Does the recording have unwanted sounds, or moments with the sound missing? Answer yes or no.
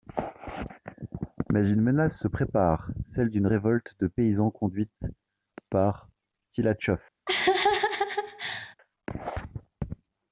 yes